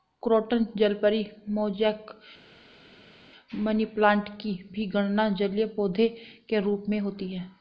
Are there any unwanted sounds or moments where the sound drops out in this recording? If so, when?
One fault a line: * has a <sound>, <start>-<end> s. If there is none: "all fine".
all fine